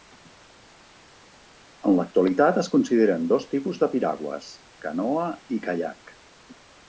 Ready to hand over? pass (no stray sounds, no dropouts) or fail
pass